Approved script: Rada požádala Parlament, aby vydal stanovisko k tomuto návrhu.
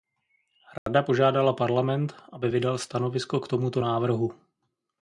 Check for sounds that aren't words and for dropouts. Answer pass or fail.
fail